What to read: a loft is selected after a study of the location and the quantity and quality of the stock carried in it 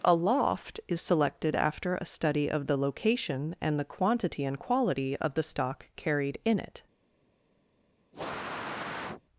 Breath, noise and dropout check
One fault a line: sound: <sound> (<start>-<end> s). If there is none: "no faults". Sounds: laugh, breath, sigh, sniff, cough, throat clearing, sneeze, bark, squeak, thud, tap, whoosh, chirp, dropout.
sound: sniff (8.1-9.2 s)